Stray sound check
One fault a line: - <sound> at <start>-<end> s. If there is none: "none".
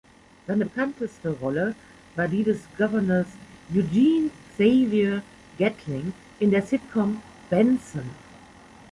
none